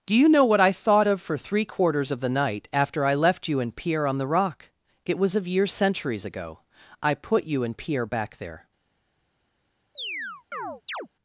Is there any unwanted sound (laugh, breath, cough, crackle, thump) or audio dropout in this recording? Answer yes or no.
yes